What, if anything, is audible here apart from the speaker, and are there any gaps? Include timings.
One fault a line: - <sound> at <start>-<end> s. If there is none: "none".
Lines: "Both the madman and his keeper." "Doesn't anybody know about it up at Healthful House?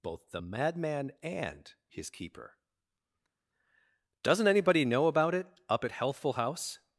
none